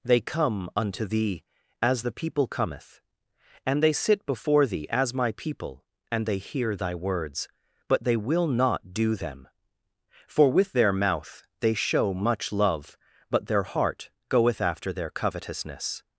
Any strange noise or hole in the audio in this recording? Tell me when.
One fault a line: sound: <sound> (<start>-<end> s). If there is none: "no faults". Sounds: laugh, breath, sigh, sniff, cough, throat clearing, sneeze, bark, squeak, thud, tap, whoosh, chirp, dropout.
no faults